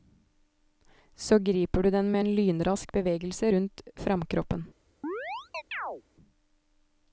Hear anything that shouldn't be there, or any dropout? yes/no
yes